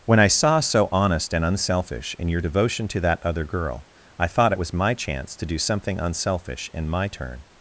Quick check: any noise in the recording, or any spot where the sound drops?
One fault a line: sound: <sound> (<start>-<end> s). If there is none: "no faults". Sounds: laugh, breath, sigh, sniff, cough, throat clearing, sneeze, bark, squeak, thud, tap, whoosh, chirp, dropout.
no faults